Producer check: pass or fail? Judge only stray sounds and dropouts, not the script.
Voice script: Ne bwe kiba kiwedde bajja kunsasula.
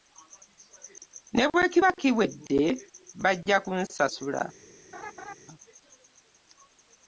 fail